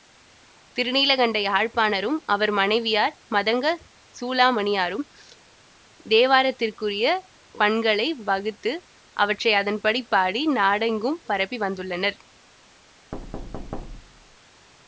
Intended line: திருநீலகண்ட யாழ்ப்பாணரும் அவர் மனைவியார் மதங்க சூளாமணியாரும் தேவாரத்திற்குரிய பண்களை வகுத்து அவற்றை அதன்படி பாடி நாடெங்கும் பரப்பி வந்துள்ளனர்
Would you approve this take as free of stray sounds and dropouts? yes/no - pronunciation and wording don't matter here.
no